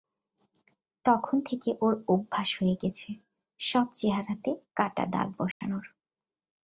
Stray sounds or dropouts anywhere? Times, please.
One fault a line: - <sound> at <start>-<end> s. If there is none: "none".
- dropout at 5.5-5.6 s